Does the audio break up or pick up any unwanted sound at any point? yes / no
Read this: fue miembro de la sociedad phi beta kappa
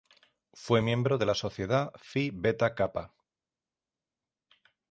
no